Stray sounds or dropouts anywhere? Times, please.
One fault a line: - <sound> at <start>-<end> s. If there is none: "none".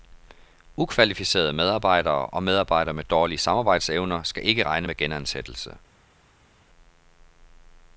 none